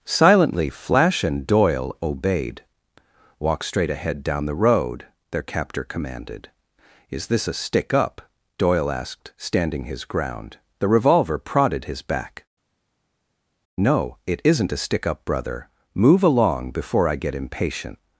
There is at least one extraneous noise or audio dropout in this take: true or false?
false